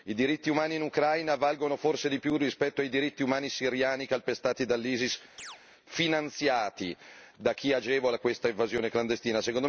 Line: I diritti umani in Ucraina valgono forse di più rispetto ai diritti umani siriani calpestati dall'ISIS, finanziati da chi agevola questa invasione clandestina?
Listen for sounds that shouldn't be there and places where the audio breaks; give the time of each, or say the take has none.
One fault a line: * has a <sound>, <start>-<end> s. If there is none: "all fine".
* has a chirp, 5.4-5.6 s